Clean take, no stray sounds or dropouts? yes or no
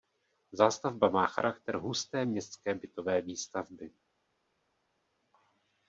yes